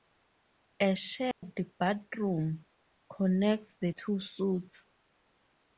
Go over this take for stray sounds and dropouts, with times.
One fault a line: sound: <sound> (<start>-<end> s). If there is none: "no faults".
sound: dropout (1.3-1.4 s)